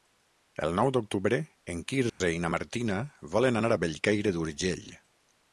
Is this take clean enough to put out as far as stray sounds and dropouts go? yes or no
no